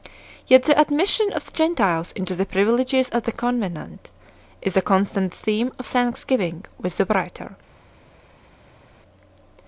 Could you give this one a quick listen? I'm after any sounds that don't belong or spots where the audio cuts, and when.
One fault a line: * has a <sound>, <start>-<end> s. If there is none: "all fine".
all fine